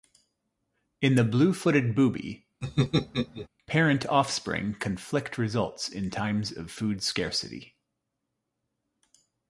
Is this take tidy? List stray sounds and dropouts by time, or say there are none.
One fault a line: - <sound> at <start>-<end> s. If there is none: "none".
- laugh at 2.6-3.5 s